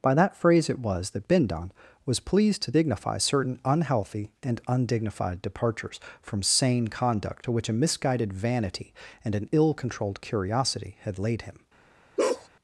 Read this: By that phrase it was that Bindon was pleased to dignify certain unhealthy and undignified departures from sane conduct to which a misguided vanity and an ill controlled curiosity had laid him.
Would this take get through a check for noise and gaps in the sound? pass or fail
fail